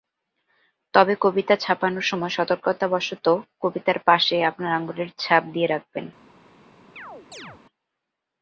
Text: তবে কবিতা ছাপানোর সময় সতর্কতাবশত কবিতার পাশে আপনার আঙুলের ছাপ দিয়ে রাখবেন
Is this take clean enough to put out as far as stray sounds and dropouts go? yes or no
no